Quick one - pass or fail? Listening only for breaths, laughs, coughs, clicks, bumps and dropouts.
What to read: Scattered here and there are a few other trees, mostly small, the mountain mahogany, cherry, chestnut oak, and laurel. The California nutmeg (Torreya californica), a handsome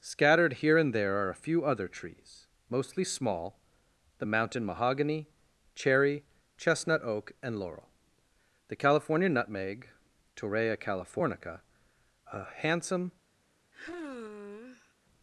fail